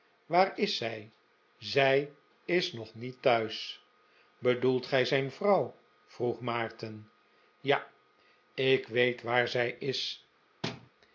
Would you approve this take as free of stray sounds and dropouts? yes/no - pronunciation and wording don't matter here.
no